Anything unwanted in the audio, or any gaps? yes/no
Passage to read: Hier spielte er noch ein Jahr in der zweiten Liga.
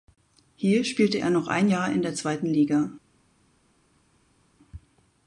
no